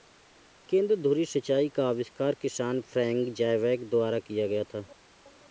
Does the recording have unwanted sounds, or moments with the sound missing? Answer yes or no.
no